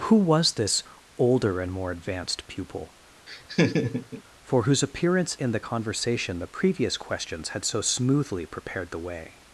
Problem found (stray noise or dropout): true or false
true